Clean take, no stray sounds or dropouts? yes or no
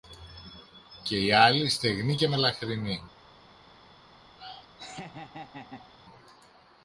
no